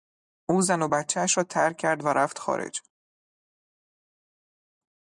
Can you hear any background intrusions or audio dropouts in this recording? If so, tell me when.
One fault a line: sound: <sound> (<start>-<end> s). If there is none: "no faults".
no faults